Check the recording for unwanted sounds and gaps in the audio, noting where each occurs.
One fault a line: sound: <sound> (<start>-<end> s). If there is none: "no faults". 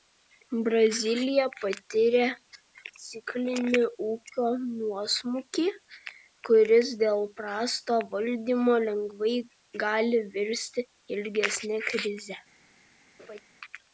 sound: laugh (13.2-13.4 s)